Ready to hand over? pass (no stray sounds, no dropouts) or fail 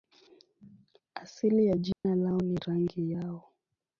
fail